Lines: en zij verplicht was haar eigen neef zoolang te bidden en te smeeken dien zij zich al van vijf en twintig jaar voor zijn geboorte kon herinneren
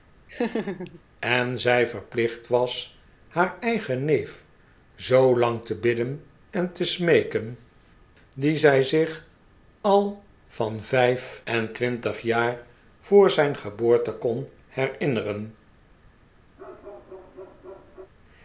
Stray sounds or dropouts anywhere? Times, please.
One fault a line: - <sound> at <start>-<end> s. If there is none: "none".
- laugh at 0.3-1.0 s
- bark at 16.6-18.1 s